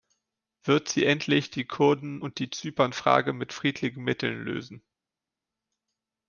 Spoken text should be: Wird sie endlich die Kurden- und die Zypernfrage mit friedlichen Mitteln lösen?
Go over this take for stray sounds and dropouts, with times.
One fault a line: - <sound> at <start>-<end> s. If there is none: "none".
none